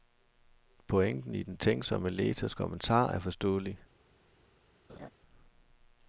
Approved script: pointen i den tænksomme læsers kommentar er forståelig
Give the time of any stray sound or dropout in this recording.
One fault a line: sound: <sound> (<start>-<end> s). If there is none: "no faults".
sound: laugh (4.9-5.1 s)